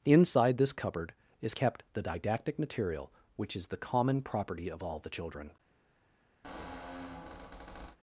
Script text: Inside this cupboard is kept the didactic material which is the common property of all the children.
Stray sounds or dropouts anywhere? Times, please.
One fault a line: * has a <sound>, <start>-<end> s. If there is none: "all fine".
* has a squeak, 6.4-8.0 s